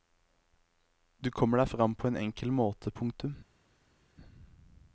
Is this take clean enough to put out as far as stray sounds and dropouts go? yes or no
yes